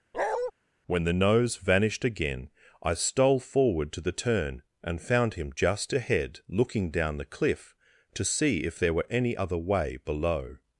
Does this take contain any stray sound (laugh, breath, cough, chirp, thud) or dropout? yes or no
yes